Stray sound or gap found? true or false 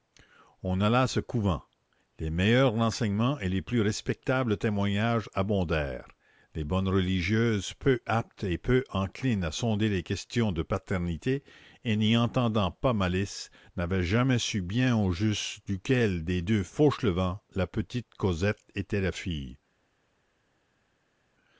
false